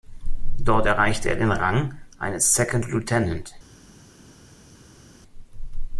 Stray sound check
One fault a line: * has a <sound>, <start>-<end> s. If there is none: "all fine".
all fine